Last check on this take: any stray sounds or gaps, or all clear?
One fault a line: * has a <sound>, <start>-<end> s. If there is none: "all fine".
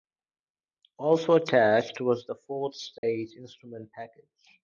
* has a dropout, 3.0-3.0 s